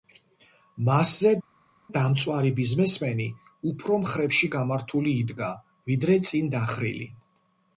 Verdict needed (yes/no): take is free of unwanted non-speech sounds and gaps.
yes